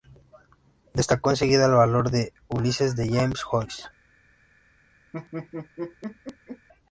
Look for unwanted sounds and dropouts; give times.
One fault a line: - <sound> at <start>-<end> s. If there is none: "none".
- laugh at 5.1-6.7 s